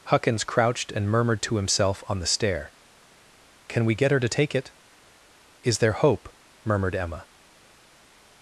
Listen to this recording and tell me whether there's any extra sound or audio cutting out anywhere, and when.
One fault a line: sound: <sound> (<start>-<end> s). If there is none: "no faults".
no faults